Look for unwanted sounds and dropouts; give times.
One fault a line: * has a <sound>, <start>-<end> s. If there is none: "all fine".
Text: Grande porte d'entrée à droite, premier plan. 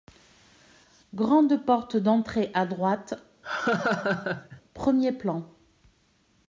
* has a laugh, 3.4-4.6 s